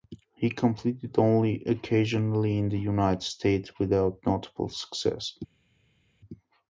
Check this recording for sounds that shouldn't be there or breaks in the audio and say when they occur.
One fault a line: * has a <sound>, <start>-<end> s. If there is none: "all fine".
all fine